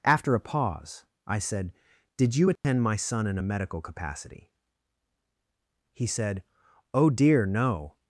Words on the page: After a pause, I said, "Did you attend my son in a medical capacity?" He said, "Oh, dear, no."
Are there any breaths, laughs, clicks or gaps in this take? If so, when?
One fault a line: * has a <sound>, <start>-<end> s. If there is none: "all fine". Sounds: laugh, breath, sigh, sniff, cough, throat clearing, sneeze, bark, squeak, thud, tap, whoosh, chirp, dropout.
* has a dropout, 2.6-2.6 s